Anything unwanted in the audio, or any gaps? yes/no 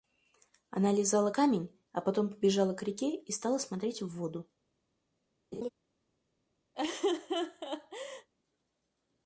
yes